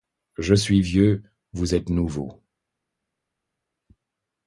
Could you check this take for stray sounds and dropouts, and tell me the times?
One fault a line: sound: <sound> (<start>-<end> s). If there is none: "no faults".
no faults